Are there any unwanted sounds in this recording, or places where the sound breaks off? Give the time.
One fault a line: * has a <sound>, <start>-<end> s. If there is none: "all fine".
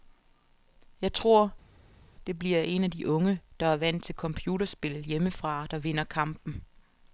all fine